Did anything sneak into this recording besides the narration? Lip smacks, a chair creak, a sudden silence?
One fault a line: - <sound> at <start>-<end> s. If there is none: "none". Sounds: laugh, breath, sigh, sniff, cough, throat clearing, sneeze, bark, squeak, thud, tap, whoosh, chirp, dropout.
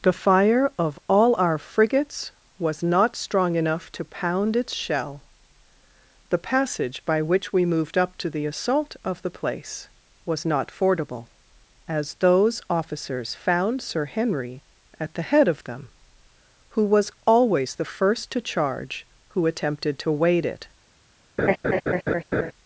- laugh at 21.4-22.5 s